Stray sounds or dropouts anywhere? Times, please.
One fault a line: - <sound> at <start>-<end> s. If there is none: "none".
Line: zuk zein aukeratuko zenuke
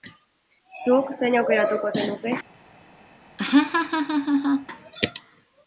- laugh at 3.4-4.7 s